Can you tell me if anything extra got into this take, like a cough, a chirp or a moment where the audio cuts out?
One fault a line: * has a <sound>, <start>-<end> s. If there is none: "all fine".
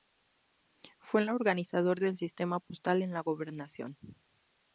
all fine